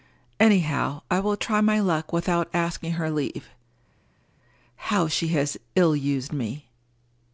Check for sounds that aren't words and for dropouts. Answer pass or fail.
pass